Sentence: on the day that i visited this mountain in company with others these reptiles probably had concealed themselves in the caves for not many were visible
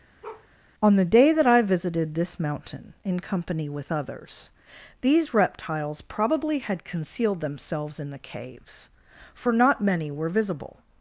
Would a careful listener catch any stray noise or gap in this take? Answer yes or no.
yes